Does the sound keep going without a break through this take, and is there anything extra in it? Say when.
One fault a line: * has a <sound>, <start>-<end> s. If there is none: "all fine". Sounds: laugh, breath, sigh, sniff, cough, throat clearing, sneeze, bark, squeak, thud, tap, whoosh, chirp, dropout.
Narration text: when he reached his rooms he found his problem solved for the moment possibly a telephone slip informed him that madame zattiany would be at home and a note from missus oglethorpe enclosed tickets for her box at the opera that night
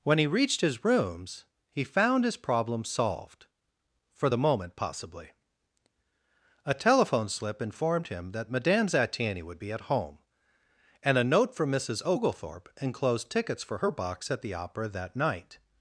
all fine